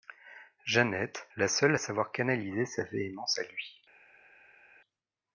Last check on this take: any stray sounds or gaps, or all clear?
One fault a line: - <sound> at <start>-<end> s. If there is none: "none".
none